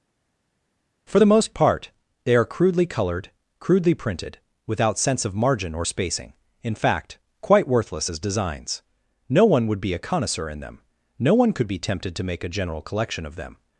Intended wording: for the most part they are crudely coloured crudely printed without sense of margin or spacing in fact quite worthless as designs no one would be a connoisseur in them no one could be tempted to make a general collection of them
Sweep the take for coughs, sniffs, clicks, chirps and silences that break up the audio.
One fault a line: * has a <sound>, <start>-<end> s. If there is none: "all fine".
all fine